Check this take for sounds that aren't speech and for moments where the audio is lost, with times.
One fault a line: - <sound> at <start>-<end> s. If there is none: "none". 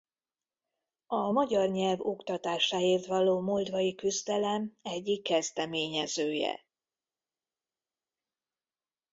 none